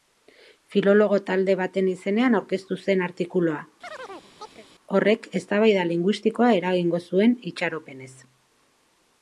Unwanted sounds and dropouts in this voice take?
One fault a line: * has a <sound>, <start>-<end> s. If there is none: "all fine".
* has a chirp, 3.8-4.7 s